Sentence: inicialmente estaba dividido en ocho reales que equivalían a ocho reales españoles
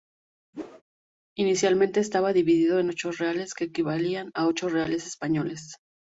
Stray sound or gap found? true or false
true